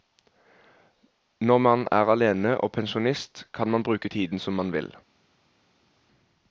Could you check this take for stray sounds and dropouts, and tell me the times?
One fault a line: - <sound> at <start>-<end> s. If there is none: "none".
none